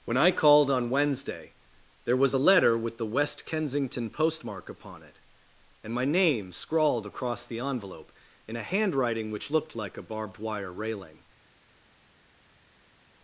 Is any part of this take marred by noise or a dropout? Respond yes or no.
no